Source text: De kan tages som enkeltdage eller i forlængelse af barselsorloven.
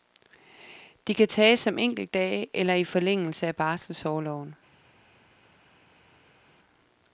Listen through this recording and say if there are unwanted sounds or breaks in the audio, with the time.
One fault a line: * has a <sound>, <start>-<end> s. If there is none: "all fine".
all fine